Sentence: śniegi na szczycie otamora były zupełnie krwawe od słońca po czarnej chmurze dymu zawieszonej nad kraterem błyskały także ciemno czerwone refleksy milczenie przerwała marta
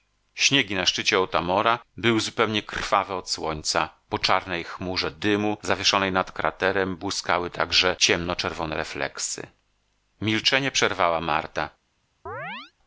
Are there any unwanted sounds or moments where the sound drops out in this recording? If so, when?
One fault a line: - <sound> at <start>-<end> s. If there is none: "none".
- chirp at 12.3-12.7 s